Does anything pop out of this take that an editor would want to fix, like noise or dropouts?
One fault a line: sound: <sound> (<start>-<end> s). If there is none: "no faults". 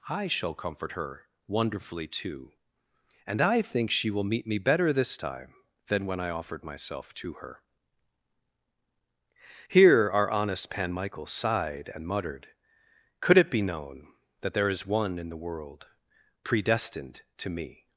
no faults